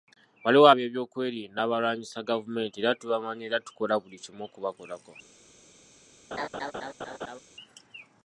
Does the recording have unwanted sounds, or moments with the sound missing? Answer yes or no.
yes